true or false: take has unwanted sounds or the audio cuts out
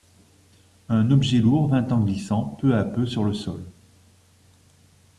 false